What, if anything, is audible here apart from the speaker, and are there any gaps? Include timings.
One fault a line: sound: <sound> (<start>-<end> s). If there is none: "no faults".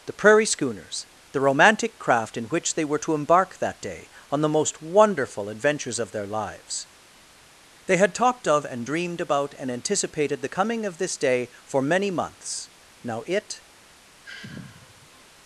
sound: sigh (14.2-15.3 s)